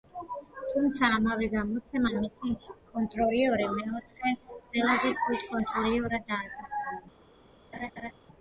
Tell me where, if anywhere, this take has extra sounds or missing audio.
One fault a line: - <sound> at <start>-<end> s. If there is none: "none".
- laugh at 7.7-8.1 s